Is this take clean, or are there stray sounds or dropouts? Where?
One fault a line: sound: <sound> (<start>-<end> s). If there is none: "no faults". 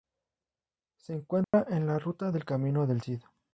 sound: dropout (1.4-1.5 s)